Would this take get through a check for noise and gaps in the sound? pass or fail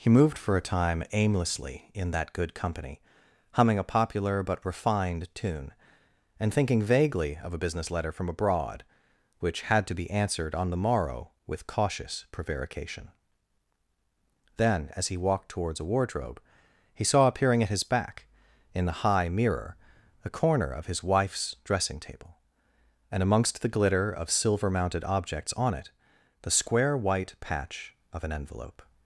pass